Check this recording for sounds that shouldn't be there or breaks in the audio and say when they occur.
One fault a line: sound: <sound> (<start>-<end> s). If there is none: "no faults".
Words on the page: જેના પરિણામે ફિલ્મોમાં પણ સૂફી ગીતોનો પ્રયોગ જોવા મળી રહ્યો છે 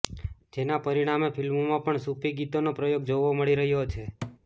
sound: thud (4.2-4.4 s)